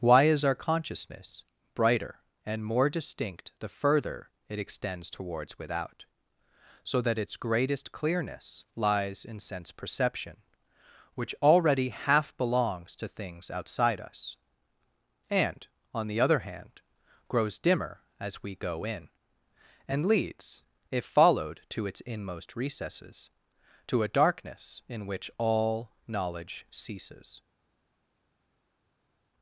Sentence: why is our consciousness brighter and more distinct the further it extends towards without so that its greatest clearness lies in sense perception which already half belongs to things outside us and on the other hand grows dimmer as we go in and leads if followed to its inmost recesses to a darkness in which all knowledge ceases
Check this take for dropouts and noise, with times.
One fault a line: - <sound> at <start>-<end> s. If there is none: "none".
none